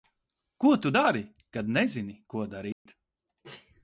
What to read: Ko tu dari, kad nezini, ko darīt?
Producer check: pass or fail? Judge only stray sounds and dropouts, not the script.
fail